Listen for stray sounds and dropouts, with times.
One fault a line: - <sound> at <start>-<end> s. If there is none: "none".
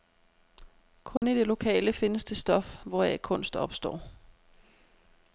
- dropout at 1.2-1.2 s